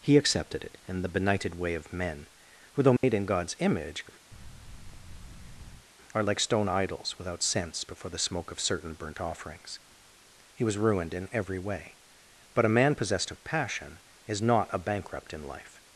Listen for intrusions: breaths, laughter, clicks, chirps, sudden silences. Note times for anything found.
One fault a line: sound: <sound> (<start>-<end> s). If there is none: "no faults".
sound: dropout (3.0-3.0 s)
sound: thud (4.3-5.9 s)